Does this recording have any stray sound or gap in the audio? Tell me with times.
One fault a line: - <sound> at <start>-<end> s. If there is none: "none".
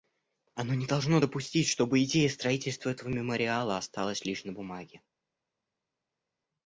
none